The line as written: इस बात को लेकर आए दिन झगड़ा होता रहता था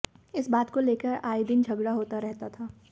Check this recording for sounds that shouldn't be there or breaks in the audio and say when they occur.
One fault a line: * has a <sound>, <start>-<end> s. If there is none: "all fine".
all fine